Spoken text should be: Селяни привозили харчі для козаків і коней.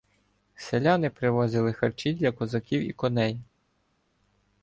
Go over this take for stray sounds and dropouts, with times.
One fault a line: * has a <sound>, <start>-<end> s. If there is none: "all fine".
all fine